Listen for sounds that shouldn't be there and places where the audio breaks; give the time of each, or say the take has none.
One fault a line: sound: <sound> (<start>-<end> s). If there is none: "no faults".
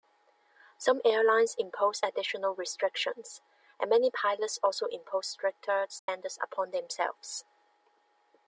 sound: dropout (6.0-6.1 s)